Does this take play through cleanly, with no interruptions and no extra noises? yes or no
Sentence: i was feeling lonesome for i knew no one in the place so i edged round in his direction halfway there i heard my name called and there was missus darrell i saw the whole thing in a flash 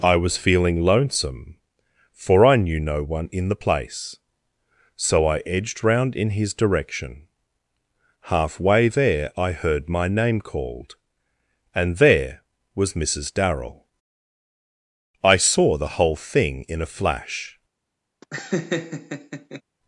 no